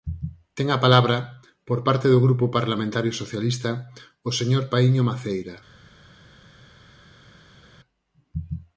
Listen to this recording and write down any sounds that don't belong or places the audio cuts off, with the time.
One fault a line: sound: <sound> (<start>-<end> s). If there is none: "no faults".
no faults